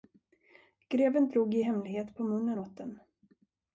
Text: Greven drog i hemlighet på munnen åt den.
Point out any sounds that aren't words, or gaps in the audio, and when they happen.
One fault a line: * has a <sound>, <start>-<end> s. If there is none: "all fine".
all fine